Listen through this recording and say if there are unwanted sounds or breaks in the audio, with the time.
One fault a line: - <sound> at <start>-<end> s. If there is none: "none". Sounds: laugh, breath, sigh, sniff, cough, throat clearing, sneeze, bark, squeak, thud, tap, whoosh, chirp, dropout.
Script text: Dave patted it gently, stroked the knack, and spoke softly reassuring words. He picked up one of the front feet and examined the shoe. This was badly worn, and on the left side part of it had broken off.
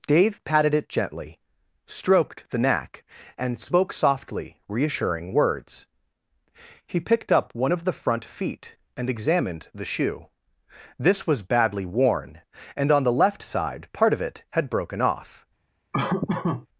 - laugh at 15.9-16.7 s